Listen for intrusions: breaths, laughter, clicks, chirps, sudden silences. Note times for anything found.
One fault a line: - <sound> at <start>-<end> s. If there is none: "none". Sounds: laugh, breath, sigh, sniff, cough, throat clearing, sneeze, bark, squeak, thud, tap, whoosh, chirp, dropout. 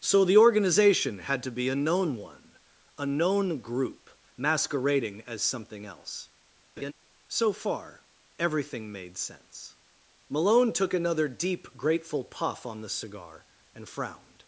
- laugh at 6.8-6.9 s